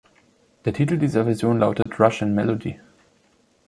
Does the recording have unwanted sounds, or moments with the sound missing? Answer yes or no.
yes